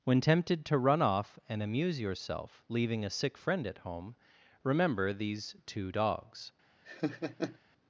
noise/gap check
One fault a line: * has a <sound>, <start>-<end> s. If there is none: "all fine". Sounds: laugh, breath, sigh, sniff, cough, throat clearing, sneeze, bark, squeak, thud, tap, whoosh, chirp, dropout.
* has a laugh, 6.8-7.6 s